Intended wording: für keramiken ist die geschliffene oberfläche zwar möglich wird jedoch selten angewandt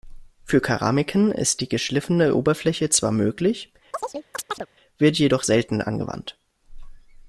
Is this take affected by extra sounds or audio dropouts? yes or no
yes